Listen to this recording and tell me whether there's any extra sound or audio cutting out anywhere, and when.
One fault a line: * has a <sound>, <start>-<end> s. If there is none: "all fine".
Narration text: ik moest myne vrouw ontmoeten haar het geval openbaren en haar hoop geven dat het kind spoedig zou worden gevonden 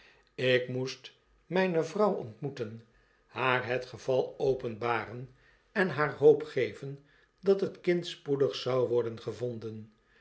all fine